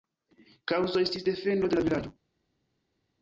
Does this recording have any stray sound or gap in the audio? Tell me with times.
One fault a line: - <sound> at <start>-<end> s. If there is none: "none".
none